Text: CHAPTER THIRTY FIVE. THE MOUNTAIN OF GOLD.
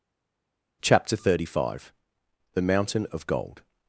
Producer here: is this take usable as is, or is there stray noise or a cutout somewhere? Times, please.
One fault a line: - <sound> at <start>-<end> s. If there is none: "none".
none